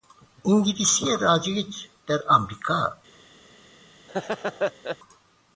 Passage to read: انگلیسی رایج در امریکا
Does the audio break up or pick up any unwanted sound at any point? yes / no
yes